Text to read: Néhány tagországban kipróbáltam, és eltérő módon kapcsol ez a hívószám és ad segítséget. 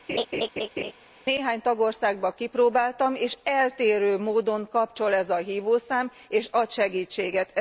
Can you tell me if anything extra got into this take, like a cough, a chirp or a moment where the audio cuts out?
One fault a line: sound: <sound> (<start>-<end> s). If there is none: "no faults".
sound: laugh (0.1-0.9 s)